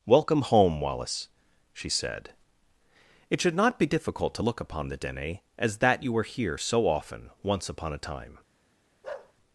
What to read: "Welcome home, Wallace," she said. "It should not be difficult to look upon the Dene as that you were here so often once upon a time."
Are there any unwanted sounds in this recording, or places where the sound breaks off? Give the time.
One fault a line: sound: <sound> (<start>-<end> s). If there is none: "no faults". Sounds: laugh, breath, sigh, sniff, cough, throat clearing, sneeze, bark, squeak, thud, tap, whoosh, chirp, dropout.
sound: bark (9.0-9.3 s)